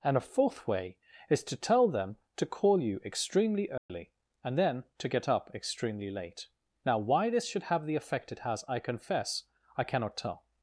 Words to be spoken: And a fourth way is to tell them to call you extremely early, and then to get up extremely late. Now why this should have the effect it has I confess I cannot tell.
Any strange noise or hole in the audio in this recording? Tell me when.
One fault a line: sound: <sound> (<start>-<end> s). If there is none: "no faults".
sound: dropout (3.8-3.9 s)